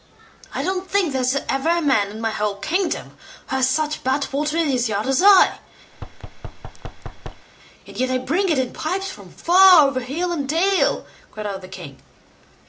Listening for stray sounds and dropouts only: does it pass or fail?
fail